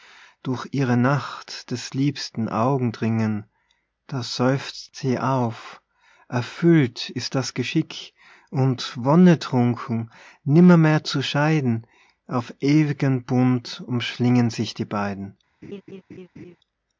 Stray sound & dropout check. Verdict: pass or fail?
fail